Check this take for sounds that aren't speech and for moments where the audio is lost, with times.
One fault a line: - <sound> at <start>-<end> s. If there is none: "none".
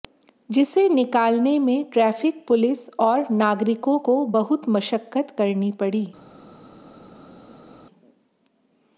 none